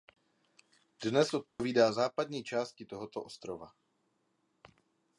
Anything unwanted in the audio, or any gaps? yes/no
yes